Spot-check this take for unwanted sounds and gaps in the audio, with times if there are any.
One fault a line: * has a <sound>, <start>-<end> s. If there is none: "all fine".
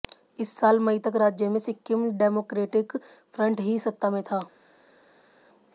all fine